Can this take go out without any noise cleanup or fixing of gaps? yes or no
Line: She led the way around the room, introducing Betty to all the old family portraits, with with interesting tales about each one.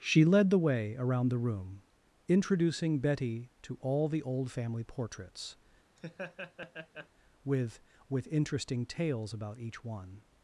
no